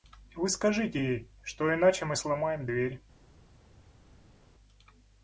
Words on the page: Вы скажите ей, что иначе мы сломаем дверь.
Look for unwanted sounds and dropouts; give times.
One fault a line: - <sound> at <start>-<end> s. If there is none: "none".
none